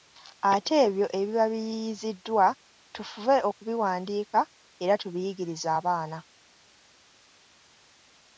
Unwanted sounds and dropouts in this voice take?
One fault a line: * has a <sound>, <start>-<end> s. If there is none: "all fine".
all fine